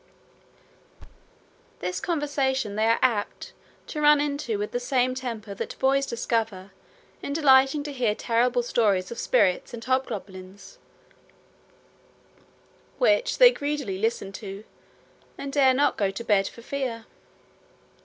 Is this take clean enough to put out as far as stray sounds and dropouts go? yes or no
no